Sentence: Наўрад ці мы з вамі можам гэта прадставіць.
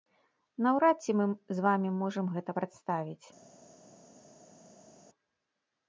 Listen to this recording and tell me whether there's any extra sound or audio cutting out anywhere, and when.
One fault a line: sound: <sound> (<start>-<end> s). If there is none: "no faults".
no faults